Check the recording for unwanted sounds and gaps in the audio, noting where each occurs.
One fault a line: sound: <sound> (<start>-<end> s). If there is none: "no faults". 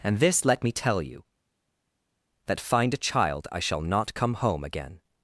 no faults